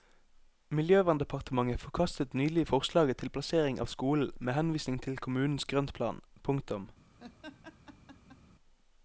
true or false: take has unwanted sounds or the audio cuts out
true